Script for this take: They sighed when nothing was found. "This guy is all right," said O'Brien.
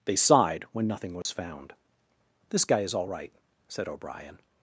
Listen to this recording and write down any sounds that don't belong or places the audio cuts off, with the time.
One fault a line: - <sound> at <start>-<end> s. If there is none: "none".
- dropout at 1.2-1.3 s